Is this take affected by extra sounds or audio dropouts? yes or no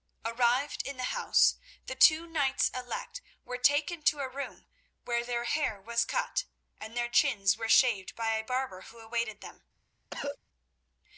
yes